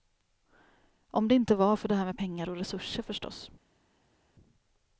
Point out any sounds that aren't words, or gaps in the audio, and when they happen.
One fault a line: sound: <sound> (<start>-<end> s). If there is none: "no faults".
no faults